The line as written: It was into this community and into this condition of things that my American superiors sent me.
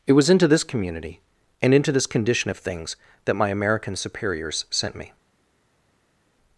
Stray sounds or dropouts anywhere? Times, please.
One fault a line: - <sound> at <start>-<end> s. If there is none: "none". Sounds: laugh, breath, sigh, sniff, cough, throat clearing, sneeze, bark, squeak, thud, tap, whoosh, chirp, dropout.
none